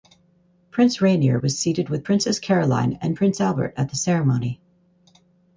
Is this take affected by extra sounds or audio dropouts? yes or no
no